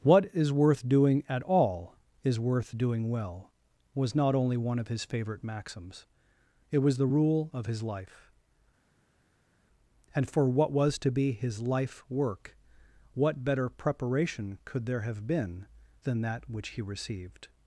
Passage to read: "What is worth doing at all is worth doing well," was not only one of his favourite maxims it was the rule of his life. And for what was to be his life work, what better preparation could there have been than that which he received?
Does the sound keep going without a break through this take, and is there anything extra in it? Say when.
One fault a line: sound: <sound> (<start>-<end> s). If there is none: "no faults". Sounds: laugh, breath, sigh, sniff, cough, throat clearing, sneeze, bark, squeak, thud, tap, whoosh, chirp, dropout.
no faults